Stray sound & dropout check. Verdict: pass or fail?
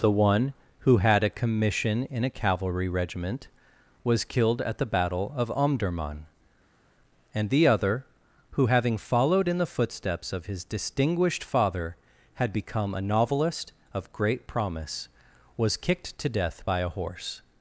pass